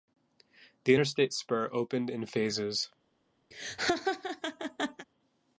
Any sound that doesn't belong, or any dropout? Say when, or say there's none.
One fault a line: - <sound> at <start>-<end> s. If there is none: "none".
- laugh at 3.5-5.1 s